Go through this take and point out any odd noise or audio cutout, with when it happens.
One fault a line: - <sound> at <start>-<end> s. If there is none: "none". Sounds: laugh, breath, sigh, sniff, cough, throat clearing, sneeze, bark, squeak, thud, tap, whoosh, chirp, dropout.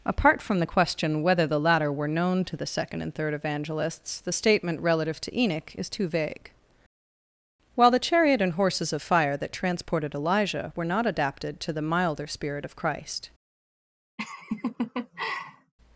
- laugh at 14.2-15.7 s